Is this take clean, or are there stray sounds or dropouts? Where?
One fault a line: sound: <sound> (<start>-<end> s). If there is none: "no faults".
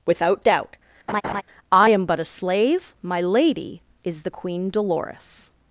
sound: laugh (1.1-1.4 s)